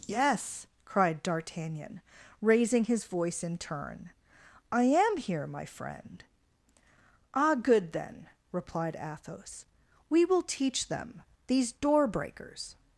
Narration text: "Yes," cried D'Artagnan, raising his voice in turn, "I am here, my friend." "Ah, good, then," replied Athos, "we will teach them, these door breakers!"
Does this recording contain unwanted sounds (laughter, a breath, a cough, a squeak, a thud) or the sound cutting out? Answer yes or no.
no